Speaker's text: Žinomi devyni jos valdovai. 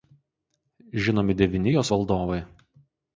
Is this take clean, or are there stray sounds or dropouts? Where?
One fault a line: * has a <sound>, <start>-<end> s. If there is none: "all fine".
all fine